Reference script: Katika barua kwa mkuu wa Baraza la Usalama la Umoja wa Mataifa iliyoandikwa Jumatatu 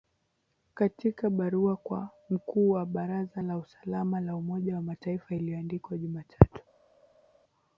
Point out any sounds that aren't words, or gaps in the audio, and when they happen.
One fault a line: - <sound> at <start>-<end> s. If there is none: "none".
none